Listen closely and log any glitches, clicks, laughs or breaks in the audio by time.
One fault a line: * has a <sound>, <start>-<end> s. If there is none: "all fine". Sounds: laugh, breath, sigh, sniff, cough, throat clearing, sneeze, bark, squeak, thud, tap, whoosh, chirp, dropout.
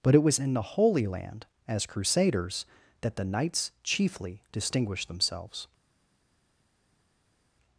all fine